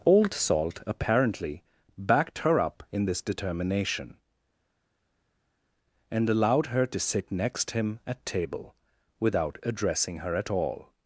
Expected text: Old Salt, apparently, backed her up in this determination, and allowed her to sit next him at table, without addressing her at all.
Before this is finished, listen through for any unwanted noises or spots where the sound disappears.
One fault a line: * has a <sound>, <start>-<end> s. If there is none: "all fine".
all fine